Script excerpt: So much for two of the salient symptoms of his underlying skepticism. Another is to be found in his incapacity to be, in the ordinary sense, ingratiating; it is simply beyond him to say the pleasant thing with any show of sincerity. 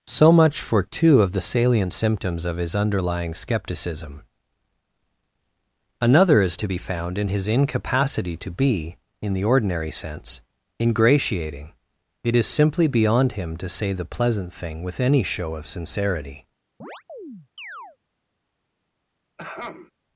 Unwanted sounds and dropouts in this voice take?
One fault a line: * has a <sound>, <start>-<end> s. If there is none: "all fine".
* has a chirp, 16.8-18.0 s
* has a throat clearing, 19.4-19.9 s